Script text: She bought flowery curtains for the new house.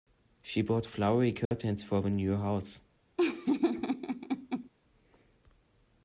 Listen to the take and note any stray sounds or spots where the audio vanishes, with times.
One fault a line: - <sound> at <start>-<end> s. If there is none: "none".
- dropout at 1.5-1.5 s
- laugh at 3.2-4.7 s